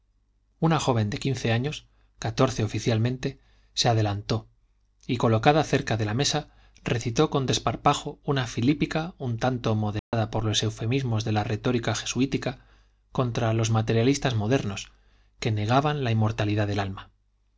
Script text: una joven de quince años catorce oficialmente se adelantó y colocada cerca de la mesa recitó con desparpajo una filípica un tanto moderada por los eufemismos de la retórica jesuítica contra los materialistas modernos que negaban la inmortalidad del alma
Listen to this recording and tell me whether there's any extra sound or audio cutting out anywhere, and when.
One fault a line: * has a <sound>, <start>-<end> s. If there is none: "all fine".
* has a dropout, 10.0-10.1 s